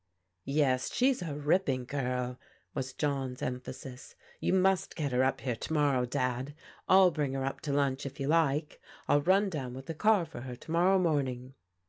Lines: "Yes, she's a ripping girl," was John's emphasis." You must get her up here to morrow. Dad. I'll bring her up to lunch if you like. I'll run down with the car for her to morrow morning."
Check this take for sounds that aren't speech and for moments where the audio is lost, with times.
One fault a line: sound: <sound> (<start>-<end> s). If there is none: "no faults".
no faults